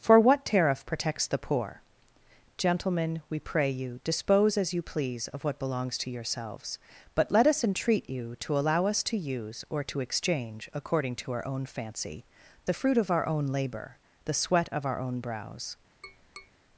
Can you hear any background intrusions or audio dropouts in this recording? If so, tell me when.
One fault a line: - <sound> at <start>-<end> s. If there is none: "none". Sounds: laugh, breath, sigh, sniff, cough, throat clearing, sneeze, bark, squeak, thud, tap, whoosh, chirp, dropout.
- tap at 16.0-16.5 s